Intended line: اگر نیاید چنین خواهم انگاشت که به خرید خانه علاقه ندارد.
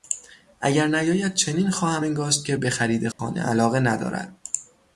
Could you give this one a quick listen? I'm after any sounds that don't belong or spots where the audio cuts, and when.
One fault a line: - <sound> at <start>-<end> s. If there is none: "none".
- dropout at 3.1-3.2 s